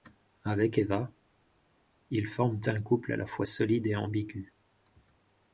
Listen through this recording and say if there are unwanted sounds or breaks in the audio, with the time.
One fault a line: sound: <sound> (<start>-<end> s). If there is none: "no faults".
no faults